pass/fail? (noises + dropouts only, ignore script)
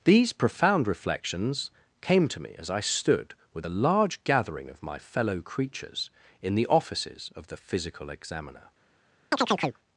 fail